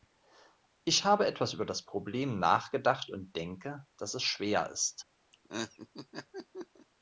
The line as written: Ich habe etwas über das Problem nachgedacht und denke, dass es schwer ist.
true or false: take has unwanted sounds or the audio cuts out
true